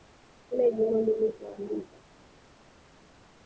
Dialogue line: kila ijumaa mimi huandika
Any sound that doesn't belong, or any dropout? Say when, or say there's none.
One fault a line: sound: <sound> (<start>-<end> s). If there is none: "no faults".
no faults